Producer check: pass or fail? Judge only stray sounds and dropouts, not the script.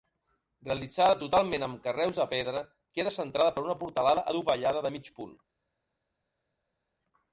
pass